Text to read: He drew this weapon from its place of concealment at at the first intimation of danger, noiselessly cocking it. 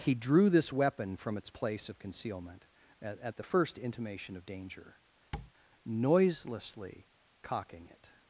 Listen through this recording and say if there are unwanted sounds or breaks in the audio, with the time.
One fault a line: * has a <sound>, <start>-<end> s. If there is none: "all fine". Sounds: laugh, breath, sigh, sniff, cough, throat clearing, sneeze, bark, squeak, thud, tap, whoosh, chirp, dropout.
* has a tap, 5.3-5.5 s